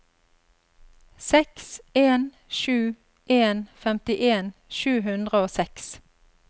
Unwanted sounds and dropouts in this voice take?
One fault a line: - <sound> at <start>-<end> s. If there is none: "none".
none